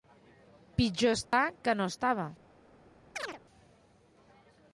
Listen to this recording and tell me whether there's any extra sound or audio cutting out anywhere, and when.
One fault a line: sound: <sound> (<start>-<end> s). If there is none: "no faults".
sound: dropout (1.2-1.3 s)
sound: chirp (3.2-3.4 s)